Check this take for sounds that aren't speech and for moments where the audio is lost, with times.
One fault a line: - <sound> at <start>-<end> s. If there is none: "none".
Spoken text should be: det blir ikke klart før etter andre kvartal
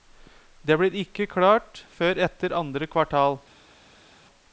none